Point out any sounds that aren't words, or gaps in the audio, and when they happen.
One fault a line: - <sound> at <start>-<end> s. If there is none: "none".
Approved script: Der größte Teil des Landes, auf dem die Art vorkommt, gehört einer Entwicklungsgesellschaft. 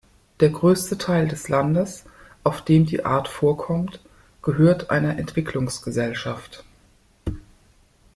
none